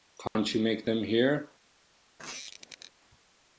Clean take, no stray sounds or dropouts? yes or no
no